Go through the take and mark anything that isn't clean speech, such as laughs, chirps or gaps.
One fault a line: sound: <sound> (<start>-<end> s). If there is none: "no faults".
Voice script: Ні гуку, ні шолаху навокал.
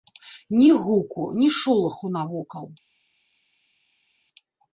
no faults